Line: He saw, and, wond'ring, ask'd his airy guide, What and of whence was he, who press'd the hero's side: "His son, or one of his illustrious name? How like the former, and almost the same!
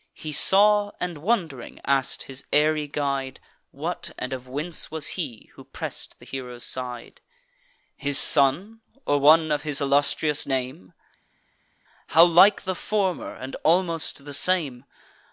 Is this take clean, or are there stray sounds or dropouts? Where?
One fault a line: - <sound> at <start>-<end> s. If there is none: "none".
none